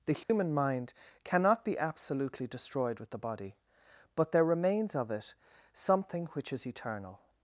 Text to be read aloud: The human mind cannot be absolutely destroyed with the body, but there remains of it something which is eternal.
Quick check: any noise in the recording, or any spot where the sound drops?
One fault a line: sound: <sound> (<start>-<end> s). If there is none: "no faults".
sound: dropout (0.2-0.3 s)